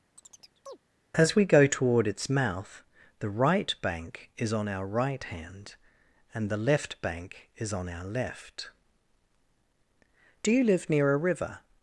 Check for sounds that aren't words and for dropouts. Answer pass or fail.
fail